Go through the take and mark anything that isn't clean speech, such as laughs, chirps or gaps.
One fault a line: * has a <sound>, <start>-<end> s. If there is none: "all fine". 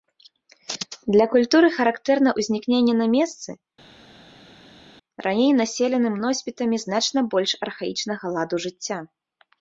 all fine